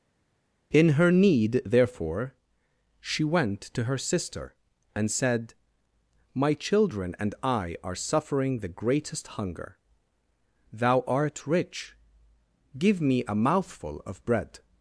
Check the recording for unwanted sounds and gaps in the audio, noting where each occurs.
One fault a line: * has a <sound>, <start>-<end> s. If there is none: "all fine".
all fine